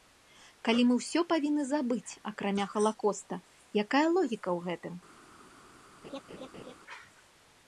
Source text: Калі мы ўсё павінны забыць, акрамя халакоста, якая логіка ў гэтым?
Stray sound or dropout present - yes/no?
yes